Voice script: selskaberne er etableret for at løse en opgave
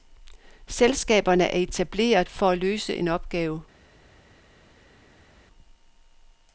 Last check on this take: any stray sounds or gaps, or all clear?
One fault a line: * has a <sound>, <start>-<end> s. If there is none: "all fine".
all fine